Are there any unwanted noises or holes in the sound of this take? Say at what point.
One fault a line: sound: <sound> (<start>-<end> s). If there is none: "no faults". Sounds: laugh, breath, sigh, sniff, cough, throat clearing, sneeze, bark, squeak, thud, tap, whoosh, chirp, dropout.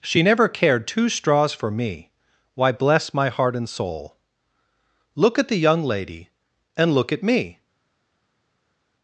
no faults